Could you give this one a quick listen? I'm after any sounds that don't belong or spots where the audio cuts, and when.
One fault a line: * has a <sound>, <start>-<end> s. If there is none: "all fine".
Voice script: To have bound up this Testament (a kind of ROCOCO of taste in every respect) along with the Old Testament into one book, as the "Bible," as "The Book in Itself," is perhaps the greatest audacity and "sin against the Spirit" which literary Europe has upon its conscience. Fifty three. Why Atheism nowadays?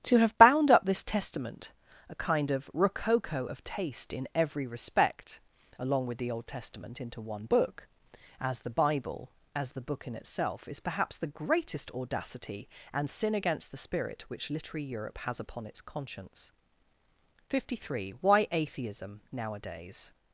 all fine